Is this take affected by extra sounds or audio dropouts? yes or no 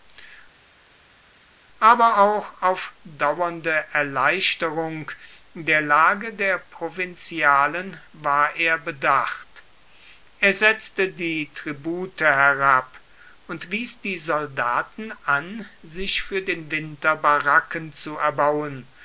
no